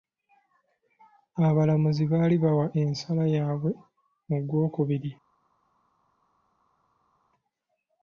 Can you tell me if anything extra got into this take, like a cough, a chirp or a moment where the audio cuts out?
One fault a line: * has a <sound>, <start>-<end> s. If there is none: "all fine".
all fine